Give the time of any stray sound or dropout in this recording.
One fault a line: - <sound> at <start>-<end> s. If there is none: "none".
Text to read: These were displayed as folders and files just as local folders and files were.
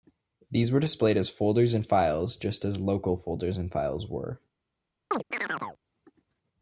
- chirp at 5.1-5.8 s